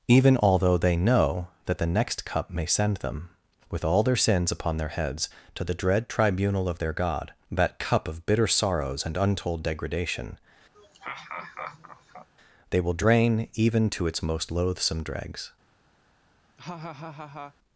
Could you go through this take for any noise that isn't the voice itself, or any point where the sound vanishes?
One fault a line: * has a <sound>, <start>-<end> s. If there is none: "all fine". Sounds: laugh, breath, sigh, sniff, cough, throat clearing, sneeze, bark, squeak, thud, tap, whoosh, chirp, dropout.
* has a laugh, 10.7-12.3 s
* has a laugh, 16.6-17.5 s